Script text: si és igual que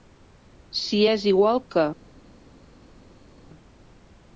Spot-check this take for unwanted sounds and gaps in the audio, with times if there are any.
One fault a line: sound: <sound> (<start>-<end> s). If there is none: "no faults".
no faults